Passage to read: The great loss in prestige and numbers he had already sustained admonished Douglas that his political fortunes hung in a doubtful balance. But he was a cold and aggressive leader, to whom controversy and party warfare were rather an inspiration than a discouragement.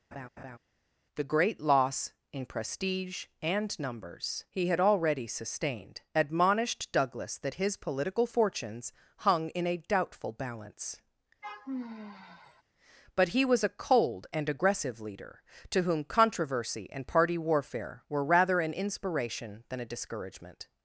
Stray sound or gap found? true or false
true